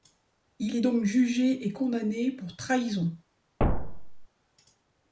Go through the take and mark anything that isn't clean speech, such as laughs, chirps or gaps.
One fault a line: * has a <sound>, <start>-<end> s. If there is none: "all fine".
* has a thud, 3.6-4.3 s